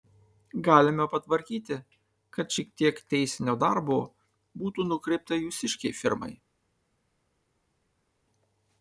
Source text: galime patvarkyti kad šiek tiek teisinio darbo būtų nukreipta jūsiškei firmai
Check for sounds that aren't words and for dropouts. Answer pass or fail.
pass